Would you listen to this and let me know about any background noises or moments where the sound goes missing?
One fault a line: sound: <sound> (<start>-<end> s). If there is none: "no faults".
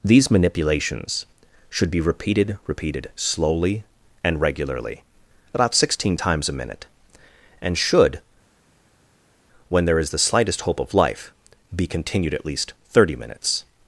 no faults